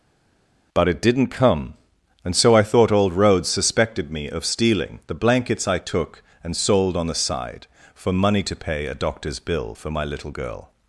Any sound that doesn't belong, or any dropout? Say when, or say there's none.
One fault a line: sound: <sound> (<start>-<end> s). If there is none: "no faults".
no faults